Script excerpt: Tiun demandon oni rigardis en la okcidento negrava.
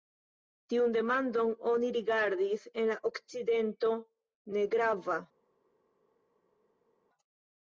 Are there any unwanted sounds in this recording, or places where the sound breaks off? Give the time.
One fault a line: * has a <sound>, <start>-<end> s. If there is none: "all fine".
all fine